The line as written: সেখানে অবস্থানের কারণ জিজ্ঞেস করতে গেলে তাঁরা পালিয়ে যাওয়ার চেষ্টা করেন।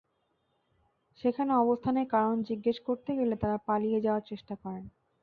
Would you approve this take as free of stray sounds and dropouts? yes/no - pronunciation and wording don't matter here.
yes